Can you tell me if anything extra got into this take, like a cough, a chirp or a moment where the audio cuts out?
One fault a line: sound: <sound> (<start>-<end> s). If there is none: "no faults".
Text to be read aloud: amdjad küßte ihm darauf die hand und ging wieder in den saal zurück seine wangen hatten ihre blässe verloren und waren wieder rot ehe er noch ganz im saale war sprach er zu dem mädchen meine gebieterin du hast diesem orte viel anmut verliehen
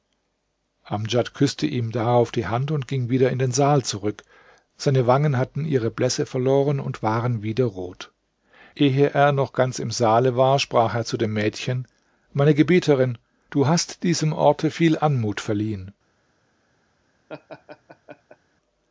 sound: laugh (17.3-18.4 s)